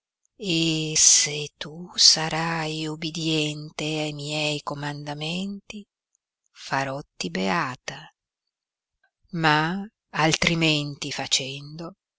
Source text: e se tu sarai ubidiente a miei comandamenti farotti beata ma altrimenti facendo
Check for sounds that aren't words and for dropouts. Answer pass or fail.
pass